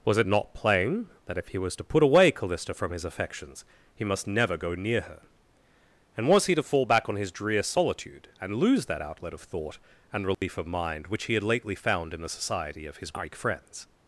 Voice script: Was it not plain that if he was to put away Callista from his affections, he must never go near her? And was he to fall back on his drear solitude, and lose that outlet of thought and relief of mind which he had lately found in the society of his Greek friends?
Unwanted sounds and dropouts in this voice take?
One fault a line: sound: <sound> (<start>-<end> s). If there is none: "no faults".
sound: dropout (10.3-10.4 s)